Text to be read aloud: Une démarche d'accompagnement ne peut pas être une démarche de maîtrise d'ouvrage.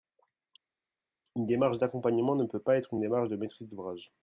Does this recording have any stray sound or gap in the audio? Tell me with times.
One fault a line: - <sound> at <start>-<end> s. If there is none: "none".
none